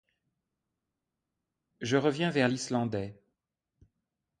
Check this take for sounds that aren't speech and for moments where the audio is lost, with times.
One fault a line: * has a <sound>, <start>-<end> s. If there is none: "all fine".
all fine